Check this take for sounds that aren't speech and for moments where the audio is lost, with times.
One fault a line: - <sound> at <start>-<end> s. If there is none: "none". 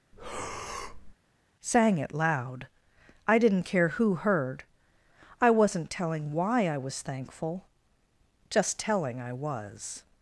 - breath at 0.1-1.1 s